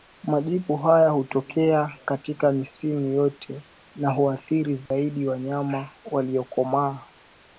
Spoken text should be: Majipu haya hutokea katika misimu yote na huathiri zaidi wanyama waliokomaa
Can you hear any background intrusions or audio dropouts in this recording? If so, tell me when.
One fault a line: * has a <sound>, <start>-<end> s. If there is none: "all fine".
* has a dropout, 4.9-4.9 s